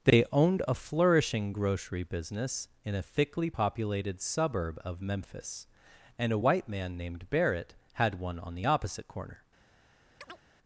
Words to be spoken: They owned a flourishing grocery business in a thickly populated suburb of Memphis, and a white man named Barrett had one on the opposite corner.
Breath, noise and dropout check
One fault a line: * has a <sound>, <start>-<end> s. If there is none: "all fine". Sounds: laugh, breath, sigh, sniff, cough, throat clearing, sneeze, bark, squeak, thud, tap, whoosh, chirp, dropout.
* has a chirp, 10.2-10.4 s